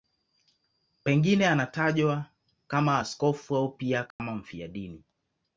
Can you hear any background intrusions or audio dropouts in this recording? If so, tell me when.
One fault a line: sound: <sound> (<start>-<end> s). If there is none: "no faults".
sound: dropout (4.1-4.2 s)